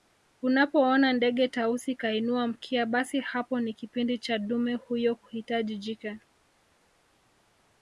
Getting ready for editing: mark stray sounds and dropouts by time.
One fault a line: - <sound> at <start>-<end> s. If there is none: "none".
none